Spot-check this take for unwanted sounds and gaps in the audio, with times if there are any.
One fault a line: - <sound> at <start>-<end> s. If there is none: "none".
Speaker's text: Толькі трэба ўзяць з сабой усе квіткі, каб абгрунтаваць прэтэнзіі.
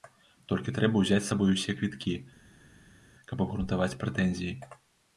none